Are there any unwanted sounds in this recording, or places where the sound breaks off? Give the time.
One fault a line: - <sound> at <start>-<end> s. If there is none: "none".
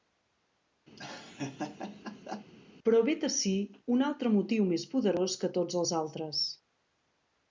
- laugh at 1.0-2.5 s